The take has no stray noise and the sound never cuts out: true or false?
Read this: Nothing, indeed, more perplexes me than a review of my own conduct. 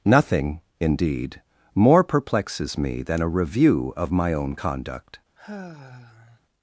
false